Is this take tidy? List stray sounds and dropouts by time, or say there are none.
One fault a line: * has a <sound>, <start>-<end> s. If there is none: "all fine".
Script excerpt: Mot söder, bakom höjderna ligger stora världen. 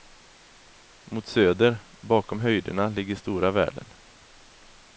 all fine